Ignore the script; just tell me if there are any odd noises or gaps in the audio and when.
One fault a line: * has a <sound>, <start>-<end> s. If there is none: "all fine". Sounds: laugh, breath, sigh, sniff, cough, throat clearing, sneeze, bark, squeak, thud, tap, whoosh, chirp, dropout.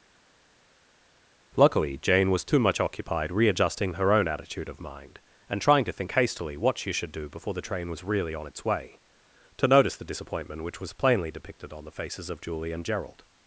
all fine